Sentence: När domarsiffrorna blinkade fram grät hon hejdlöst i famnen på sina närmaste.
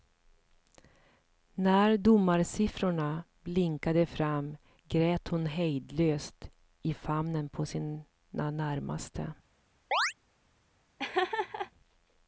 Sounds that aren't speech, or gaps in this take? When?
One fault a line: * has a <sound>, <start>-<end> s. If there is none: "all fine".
* has a chirp, 9.9-10.1 s
* has a laugh, 11.0-11.7 s